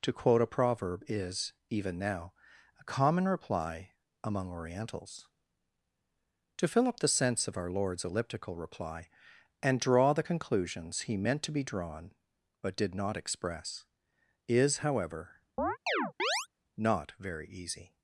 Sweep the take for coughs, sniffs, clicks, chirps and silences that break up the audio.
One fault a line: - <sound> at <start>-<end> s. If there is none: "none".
- chirp at 15.6-16.5 s